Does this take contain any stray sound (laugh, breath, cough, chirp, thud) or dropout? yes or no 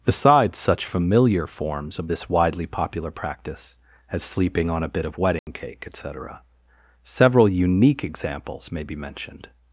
yes